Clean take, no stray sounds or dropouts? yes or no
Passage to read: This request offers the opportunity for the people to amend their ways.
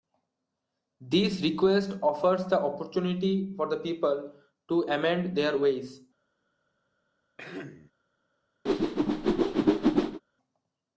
no